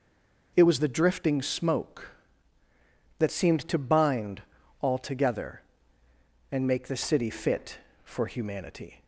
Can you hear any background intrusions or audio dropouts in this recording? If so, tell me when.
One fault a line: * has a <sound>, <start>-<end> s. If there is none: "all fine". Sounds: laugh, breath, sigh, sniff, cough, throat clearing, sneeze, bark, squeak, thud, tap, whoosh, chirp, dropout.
all fine